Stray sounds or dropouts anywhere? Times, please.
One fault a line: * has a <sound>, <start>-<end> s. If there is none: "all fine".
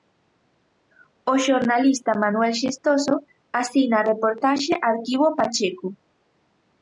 all fine